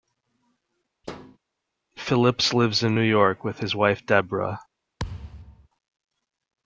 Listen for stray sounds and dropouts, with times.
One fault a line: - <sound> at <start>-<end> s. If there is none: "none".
- thud at 1.0-1.4 s
- thud at 5.0-5.7 s